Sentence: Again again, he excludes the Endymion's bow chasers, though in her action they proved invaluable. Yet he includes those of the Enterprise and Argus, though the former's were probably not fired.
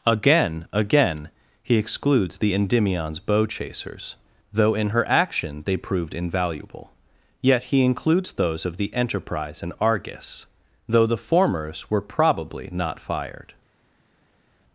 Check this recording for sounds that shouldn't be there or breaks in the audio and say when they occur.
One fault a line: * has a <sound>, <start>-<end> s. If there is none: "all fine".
all fine